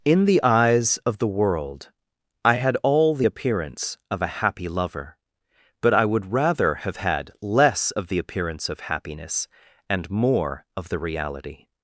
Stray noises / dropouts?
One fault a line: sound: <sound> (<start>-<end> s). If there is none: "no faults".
no faults